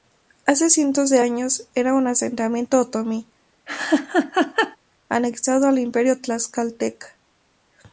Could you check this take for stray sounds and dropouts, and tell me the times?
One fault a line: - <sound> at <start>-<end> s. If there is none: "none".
- laugh at 3.7-4.8 s